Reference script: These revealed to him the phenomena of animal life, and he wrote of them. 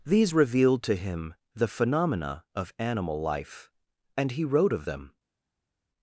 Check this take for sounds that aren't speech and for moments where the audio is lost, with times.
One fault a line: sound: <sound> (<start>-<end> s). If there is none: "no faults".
no faults